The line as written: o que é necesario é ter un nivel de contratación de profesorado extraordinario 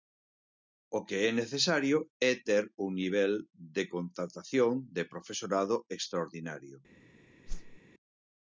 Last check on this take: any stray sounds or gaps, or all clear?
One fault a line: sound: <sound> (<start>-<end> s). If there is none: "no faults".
sound: whoosh (7.5-7.8 s)